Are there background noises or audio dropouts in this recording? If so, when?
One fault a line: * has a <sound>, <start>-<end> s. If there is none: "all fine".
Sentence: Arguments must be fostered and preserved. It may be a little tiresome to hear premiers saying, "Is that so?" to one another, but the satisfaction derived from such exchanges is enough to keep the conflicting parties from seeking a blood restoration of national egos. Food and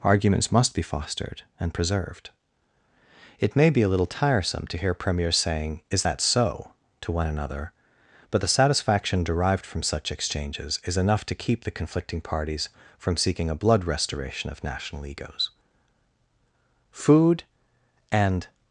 all fine